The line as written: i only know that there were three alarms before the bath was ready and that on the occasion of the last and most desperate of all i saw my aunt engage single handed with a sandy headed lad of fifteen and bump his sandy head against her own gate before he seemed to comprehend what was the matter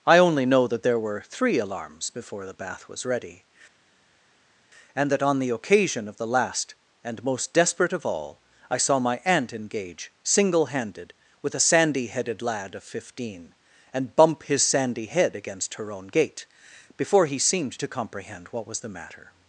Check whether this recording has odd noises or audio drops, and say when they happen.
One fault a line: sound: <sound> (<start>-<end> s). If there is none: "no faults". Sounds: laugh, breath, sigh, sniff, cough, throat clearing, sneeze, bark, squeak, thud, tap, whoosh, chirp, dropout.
no faults